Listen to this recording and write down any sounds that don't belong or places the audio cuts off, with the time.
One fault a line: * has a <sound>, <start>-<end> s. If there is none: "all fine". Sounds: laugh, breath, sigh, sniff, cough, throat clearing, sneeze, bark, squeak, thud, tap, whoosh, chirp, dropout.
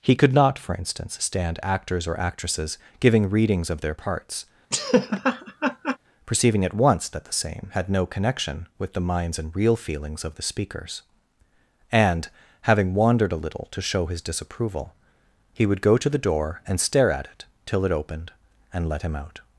* has a laugh, 4.7-6.0 s